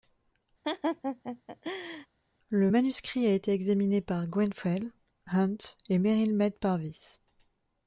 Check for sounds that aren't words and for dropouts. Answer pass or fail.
fail